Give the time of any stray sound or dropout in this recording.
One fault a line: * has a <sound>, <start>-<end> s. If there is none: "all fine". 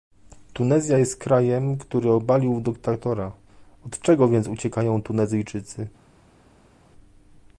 all fine